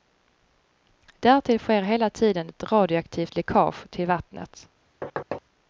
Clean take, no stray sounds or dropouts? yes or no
no